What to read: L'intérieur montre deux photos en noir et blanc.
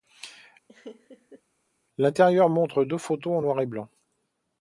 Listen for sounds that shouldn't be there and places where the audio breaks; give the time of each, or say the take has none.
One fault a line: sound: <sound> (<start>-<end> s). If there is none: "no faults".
sound: laugh (0.7-1.4 s)